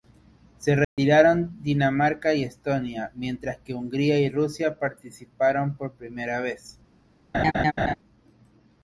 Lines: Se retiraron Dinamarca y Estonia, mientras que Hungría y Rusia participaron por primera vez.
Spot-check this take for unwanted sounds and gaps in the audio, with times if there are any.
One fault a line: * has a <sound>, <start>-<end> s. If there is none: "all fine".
* has a dropout, 0.8-1.0 s
* has a laugh, 7.3-7.9 s